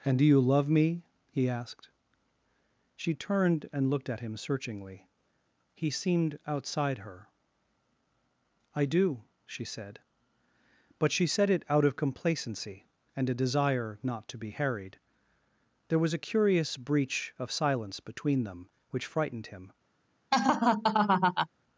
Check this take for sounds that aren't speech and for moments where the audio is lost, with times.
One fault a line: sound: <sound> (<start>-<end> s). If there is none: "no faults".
sound: laugh (20.3-21.5 s)